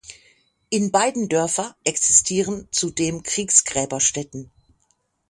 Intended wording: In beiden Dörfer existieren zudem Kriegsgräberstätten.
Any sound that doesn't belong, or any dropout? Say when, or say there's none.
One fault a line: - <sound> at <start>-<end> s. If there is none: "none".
none